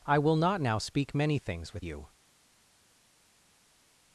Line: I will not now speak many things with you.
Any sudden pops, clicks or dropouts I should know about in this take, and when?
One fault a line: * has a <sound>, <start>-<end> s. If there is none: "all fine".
all fine